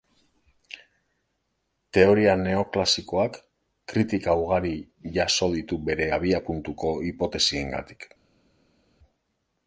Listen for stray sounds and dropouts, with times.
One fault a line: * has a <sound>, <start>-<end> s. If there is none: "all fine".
all fine